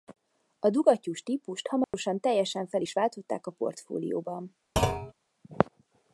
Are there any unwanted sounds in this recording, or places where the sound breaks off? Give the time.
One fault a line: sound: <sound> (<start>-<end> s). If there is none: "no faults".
sound: dropout (1.8-1.9 s)
sound: thud (4.8-5.1 s)